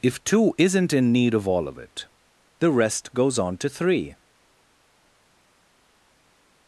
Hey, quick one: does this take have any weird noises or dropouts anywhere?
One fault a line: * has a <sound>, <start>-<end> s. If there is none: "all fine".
all fine